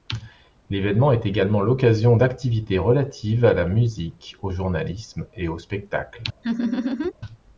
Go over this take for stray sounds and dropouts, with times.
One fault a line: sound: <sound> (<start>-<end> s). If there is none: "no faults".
sound: laugh (6.4-7.1 s)